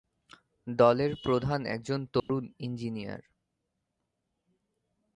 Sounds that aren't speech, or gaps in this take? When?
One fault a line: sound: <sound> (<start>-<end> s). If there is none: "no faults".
sound: dropout (2.2-2.3 s)